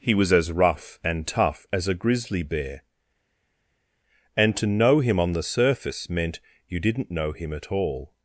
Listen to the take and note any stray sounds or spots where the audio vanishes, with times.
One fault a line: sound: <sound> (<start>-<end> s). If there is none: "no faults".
no faults